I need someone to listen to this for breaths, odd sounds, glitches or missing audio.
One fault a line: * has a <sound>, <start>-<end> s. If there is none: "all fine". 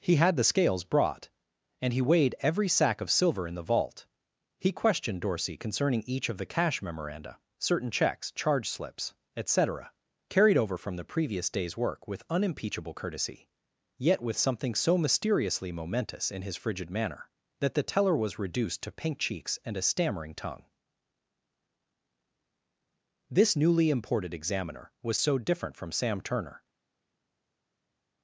all fine